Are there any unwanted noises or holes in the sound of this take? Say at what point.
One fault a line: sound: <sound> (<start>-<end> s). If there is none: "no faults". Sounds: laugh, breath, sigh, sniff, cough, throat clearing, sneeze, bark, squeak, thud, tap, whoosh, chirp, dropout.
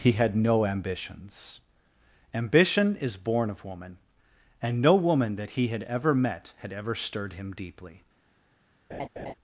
sound: laugh (8.9-9.3 s)